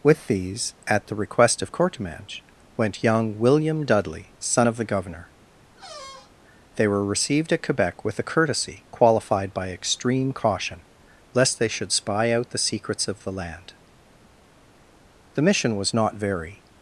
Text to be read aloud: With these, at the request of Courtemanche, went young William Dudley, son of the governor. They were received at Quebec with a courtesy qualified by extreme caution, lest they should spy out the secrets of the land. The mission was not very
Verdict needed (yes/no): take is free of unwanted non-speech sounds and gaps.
no